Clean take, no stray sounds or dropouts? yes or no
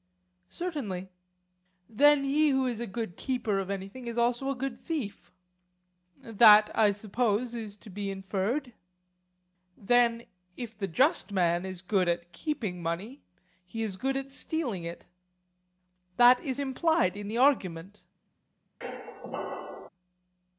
no